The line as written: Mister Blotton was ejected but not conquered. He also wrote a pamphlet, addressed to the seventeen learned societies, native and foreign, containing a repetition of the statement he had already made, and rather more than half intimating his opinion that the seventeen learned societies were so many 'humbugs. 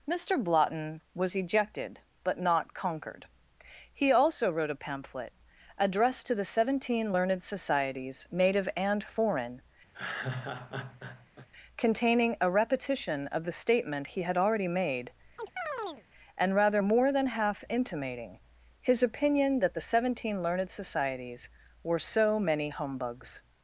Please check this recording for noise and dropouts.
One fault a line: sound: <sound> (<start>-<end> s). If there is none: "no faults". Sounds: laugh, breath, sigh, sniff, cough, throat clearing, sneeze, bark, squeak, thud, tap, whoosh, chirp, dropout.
sound: laugh (9.9-11.5 s)
sound: chirp (15.4-16.0 s)